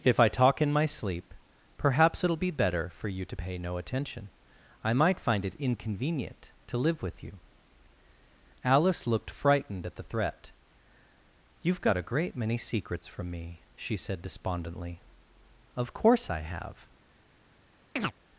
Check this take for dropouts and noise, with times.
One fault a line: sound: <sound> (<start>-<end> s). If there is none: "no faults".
sound: chirp (18.0-18.1 s)